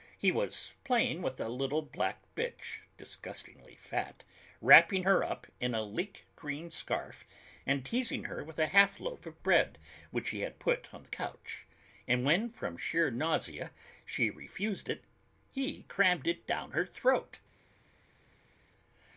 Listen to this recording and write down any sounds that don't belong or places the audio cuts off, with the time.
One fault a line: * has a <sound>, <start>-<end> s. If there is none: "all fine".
all fine